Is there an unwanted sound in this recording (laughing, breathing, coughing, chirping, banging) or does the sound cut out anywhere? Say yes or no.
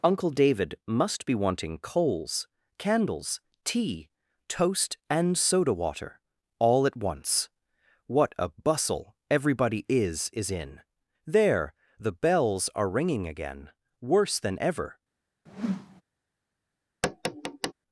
yes